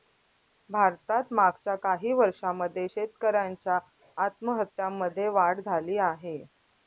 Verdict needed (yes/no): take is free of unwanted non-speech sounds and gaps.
yes